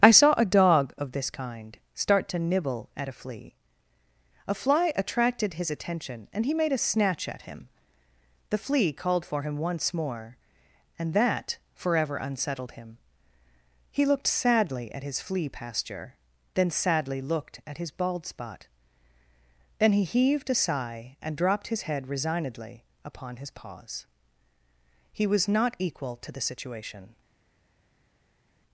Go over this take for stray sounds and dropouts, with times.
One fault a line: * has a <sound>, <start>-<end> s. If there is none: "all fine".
all fine